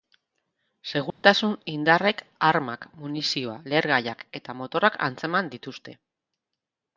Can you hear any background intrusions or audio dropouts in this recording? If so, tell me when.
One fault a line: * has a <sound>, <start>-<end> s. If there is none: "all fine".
* has a dropout, 1.1-1.2 s